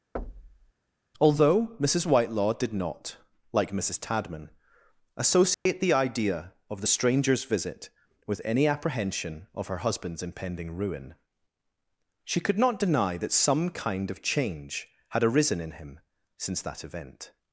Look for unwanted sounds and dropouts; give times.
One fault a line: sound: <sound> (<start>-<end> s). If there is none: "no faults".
sound: thud (0.2-0.7 s)
sound: dropout (5.5-5.7 s)